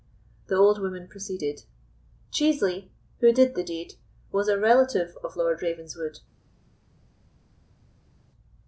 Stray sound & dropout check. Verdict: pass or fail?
pass